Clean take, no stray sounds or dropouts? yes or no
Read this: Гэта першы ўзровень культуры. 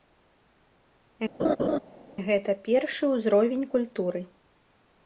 no